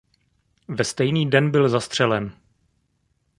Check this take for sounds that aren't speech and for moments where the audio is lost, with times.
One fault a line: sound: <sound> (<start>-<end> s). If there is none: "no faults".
no faults